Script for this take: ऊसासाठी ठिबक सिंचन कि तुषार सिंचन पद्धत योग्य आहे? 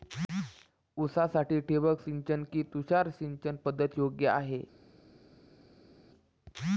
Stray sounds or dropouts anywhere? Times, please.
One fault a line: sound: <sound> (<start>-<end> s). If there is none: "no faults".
no faults